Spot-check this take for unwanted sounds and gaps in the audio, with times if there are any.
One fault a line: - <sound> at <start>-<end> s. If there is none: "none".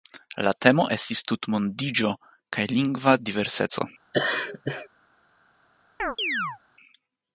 - laugh at 4.1-4.9 s
- chirp at 6.0-6.6 s